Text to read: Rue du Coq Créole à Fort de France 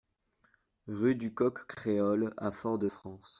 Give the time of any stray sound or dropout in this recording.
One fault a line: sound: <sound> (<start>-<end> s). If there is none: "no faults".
no faults